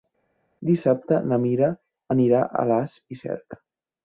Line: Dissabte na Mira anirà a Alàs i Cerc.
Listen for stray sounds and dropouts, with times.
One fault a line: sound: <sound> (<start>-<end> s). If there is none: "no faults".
no faults